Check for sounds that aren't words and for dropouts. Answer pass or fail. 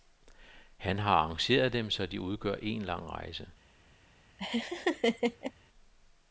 fail